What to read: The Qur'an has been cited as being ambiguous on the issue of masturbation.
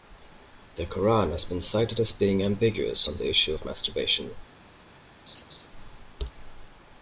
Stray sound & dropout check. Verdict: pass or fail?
fail